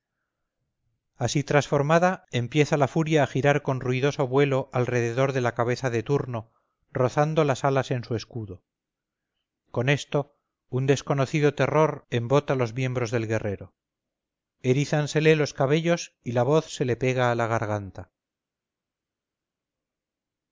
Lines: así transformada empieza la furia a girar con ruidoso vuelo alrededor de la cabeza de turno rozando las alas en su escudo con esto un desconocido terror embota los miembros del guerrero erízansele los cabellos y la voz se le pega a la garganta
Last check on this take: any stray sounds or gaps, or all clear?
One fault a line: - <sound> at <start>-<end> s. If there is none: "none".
none